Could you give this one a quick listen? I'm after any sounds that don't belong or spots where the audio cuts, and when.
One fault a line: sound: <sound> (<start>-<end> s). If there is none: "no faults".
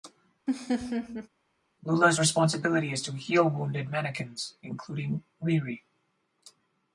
sound: laugh (0.5-1.3 s)